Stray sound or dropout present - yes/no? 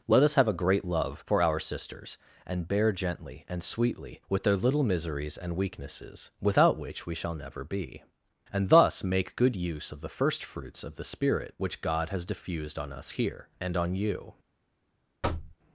yes